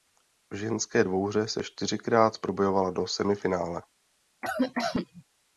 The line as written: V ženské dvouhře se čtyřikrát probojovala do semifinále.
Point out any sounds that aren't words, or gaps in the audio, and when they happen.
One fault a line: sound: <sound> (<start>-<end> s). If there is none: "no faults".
sound: cough (4.4-5.2 s)